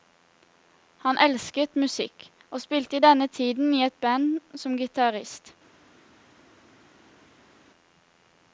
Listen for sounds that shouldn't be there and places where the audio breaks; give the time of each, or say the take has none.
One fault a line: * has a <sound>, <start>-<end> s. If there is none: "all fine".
all fine